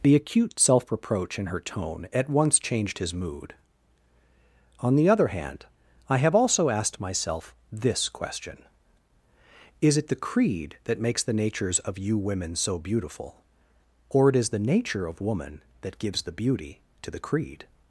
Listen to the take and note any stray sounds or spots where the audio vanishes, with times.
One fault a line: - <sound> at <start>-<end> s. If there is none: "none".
none